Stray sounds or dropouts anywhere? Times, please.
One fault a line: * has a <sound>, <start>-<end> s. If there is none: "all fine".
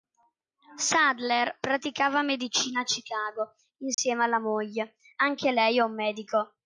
* has a dropout, 3.9-4.0 s